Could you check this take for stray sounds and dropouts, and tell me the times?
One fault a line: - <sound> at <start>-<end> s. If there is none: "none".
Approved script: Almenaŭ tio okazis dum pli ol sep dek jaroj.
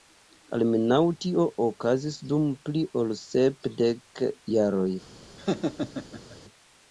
- laugh at 5.4-6.4 s